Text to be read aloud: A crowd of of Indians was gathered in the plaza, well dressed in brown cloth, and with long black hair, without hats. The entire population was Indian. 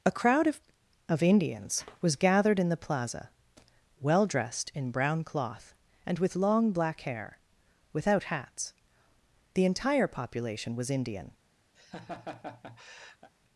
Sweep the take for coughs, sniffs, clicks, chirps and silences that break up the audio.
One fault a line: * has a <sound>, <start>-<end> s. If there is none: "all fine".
* has a laugh, 11.7-13.3 s